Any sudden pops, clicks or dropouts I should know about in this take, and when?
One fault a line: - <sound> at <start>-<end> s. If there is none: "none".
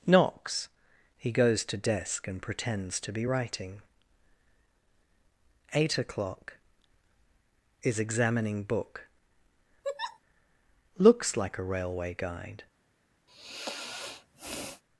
- laugh at 9.8-10.2 s
- sigh at 13.3-14.8 s